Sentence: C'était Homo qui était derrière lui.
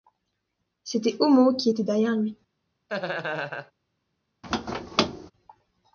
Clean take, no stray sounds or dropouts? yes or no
no